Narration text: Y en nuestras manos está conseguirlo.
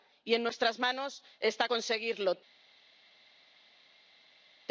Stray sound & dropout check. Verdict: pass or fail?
pass